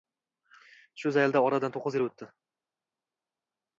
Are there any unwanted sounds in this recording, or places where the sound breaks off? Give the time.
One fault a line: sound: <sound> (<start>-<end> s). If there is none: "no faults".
no faults